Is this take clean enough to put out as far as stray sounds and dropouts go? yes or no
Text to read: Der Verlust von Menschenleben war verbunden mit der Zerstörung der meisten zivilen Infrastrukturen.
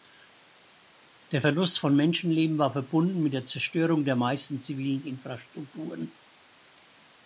yes